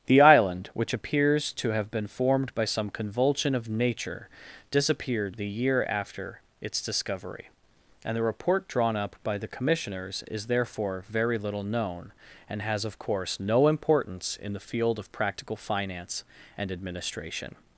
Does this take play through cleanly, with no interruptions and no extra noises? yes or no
yes